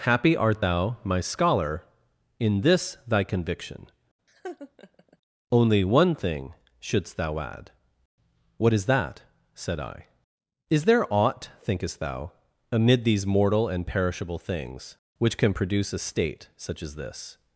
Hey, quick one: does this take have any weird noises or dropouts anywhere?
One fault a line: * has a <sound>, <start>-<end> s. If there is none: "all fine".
* has a laugh, 4.3-5.2 s